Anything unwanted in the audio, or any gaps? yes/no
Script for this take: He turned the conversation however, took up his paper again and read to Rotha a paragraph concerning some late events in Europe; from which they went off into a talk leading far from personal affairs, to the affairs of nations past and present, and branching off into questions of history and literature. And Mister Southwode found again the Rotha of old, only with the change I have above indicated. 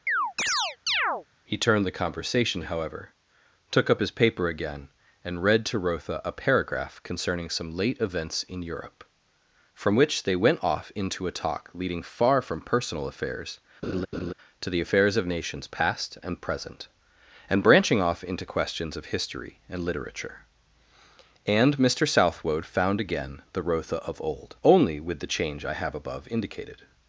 yes